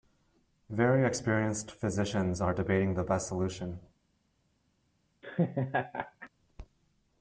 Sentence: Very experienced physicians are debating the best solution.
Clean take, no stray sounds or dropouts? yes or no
no